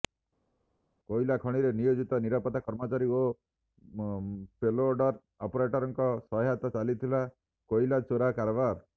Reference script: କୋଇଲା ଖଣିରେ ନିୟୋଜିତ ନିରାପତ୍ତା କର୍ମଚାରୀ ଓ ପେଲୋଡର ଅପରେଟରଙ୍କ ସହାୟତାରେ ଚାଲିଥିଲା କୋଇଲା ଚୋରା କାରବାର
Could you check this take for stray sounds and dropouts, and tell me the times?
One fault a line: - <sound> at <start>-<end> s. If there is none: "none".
none